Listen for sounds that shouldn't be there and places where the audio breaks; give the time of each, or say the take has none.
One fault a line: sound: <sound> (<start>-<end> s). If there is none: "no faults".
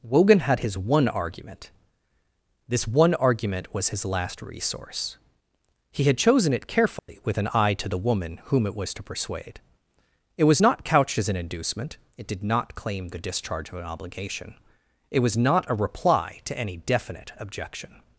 sound: dropout (7.0-7.1 s)